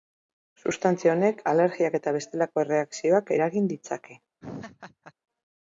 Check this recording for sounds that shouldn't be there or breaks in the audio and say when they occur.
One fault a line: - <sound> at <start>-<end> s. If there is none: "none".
- laugh at 4.4-5.1 s